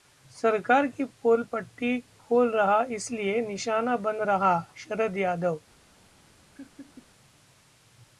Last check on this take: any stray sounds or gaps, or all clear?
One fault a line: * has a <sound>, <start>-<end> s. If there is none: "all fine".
* has a laugh, 6.5-7.1 s